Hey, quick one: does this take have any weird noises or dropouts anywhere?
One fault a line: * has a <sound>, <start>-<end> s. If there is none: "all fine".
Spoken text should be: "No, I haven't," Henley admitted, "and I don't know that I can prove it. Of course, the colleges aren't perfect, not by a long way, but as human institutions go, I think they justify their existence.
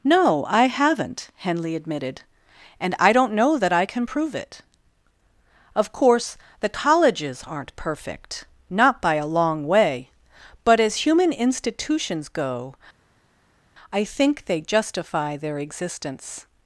all fine